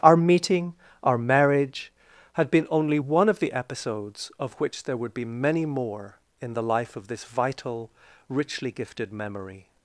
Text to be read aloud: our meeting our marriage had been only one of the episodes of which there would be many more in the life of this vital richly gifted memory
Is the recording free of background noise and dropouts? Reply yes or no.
yes